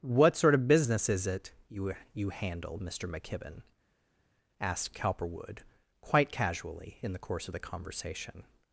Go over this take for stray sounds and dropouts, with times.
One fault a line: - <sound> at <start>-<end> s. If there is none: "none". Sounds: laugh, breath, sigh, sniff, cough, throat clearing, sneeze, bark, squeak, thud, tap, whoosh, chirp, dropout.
none